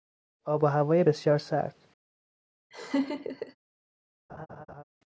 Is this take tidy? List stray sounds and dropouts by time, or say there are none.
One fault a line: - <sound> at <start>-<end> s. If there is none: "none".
- laugh at 2.7-3.6 s
- laugh at 4.3-4.8 s